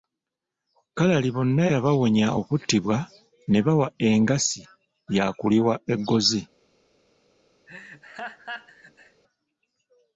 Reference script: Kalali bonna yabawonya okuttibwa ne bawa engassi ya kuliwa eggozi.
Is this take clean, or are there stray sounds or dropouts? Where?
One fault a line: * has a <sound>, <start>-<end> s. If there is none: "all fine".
* has a laugh, 7.7-9.2 s